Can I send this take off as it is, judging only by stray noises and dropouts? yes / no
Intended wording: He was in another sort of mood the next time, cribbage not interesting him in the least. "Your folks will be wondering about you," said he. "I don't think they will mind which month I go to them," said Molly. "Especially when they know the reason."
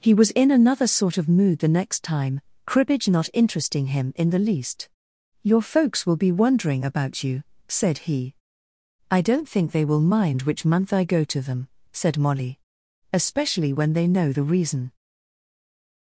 yes